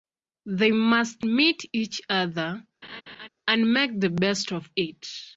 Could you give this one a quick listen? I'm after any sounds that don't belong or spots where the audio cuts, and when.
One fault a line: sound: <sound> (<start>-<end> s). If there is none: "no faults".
sound: laugh (2.8-3.3 s)